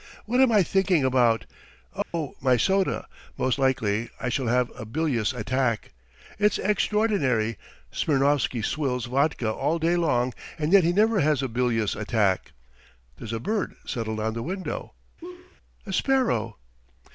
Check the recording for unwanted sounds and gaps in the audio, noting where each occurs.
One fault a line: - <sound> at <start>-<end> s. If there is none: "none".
- dropout at 2.0-2.1 s
- laugh at 15.2-15.6 s